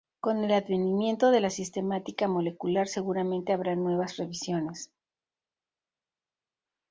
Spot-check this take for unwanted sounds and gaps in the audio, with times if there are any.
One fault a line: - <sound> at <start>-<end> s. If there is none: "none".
none